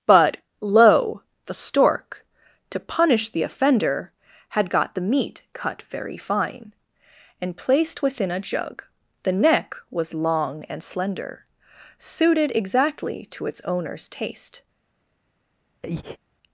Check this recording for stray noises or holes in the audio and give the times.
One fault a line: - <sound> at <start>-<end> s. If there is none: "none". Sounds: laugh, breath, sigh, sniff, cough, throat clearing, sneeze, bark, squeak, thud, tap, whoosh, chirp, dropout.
- breath at 15.8-16.2 s